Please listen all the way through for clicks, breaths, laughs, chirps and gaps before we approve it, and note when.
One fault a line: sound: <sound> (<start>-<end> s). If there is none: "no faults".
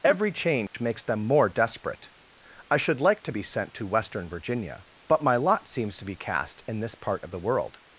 sound: dropout (0.7-0.7 s)